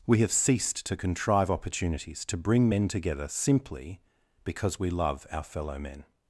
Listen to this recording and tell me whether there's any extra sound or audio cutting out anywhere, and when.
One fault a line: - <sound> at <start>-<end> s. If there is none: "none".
none